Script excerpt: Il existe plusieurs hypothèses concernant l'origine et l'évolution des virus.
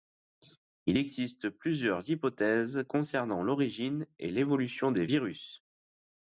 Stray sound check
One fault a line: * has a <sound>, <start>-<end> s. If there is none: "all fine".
all fine